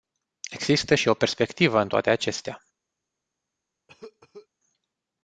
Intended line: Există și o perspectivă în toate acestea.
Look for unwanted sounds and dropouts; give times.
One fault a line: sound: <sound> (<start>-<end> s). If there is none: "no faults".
sound: cough (3.9-4.5 s)